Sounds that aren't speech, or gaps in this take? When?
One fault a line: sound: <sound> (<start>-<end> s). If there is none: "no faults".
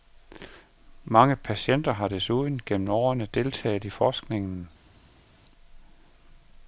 no faults